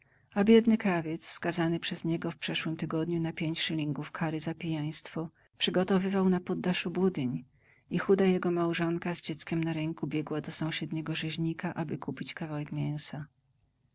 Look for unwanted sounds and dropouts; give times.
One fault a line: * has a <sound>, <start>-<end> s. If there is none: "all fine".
all fine